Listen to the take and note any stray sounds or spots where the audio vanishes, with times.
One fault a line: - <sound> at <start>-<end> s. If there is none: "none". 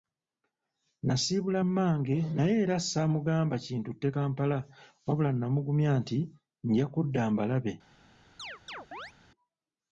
- chirp at 8.4-9.1 s